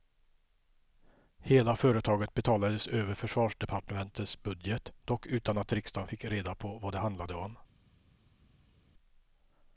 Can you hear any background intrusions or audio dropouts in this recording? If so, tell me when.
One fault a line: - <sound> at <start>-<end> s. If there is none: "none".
none